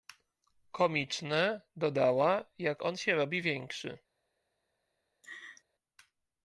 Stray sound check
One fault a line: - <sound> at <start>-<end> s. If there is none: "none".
- laugh at 5.2-5.6 s